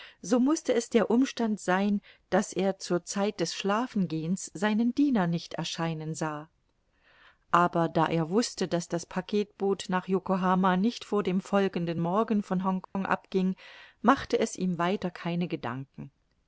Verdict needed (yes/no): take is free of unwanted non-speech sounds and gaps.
no